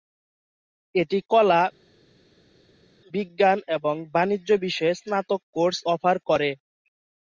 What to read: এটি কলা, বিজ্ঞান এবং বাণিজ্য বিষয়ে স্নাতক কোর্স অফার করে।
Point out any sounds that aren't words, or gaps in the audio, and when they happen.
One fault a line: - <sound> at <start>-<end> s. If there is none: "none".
none